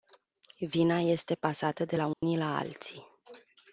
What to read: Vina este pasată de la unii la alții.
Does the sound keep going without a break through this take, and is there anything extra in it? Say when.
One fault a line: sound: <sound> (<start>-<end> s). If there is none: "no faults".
sound: dropout (2.1-2.2 s)